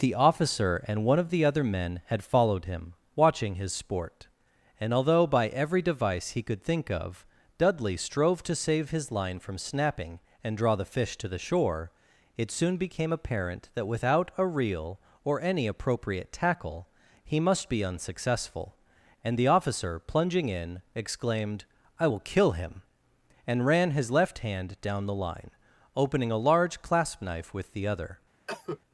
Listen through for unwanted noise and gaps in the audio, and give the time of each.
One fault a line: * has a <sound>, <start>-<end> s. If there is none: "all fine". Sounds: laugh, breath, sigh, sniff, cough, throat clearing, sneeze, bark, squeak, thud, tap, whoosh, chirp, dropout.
* has a cough, 28.5-28.8 s